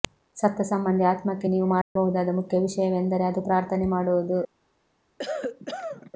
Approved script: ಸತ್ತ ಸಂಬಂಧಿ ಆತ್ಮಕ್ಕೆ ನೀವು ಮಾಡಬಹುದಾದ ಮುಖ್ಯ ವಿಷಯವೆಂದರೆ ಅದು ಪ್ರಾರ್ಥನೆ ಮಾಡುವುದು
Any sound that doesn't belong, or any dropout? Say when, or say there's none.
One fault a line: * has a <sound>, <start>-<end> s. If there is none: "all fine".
* has a dropout, 1.8-2.0 s
* has a cough, 5.2-6.1 s